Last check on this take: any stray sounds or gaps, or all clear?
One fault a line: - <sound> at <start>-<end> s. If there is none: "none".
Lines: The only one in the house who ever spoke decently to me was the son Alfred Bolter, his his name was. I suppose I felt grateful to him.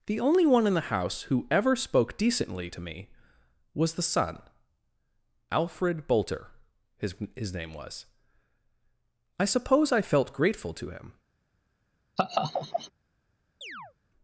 - laugh at 12.2-12.9 s
- chirp at 13.6-13.9 s